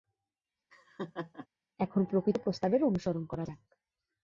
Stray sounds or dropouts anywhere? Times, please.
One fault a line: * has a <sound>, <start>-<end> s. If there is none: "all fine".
* has a laugh, 0.7-1.5 s